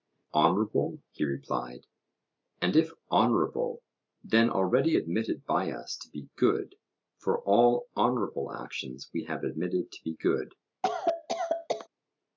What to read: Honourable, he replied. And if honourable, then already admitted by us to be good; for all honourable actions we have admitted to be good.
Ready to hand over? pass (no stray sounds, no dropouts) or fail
fail